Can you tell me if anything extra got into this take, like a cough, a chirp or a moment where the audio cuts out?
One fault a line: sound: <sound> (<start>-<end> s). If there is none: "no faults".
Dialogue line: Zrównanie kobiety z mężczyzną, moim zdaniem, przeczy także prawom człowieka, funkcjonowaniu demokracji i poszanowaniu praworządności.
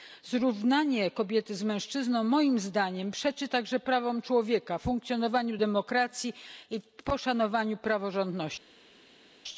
no faults